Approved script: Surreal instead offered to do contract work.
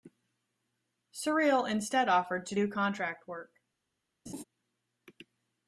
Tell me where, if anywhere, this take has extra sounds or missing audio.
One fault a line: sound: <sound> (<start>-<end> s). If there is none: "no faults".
sound: laugh (4.3-4.4 s)